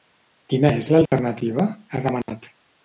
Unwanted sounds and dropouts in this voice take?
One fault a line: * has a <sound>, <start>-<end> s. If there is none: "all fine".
* has a dropout, 1.1-1.1 s
* has a dropout, 2.2-2.3 s